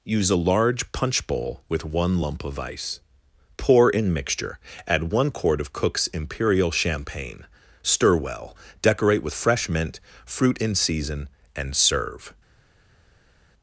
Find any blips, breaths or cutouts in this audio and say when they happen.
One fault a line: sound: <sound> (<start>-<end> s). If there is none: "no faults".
no faults